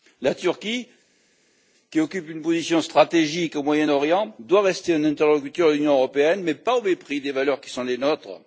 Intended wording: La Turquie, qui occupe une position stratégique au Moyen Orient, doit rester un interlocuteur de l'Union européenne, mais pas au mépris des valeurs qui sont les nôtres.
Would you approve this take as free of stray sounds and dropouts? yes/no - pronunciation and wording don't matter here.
yes